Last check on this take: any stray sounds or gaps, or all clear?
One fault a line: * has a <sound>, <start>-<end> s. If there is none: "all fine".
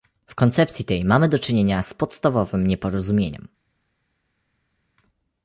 all fine